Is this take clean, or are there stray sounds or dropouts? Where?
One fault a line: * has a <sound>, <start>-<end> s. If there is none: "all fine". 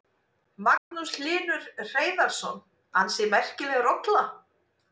* has a dropout, 0.8-0.9 s